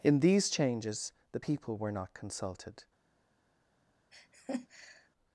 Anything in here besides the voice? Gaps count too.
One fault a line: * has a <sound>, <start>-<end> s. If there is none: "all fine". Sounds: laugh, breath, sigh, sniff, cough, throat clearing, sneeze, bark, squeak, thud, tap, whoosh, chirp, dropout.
* has a laugh, 4.1-5.1 s